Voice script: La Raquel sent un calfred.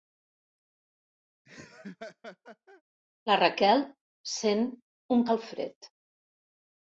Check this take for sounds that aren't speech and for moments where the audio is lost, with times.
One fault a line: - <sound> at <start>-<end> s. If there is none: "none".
- laugh at 1.4-2.8 s